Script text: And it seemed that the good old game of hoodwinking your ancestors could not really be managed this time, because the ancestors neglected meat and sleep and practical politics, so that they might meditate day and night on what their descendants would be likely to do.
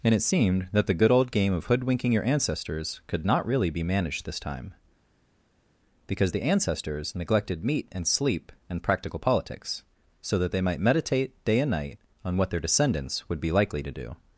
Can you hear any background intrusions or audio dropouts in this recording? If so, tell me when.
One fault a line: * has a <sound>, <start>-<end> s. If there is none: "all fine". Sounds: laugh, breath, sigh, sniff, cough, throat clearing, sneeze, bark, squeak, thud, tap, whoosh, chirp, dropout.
all fine